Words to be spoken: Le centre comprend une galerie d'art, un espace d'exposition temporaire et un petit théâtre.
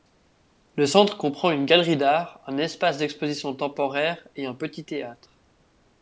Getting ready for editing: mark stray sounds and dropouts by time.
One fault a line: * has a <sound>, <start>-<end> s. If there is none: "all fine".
all fine